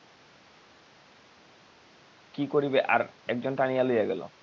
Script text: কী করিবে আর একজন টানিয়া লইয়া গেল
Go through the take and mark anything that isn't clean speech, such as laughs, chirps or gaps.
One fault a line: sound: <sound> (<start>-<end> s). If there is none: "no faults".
no faults